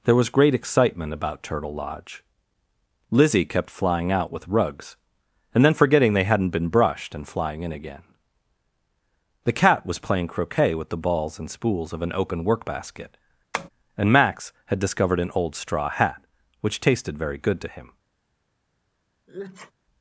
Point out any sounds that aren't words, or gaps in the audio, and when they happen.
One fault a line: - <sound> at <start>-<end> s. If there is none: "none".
- tap at 13.5-13.7 s
- sneeze at 19.3-19.7 s